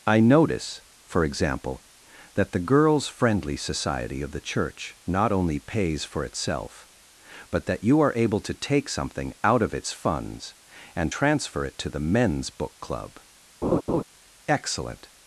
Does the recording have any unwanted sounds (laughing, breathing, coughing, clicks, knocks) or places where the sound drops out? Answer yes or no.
yes